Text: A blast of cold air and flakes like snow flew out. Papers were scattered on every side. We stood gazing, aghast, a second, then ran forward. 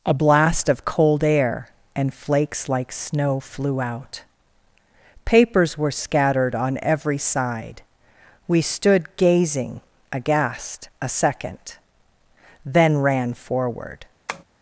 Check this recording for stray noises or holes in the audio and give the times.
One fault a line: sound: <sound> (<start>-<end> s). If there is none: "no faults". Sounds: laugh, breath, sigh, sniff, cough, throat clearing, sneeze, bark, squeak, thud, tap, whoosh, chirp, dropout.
sound: tap (14.3-14.4 s)